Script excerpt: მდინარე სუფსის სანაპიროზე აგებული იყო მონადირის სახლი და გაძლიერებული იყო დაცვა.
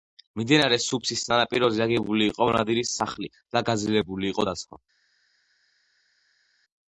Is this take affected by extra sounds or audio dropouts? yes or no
no